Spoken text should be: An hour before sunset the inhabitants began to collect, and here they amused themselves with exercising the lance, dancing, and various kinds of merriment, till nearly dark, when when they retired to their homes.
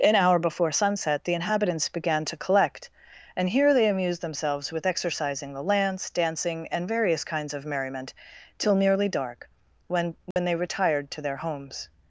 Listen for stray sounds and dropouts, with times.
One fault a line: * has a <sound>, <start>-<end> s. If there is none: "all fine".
* has a dropout, 10.3-10.4 s